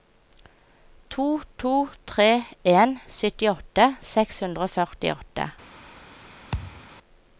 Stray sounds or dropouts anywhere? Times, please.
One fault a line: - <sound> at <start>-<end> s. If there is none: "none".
- thud at 6.5-6.8 s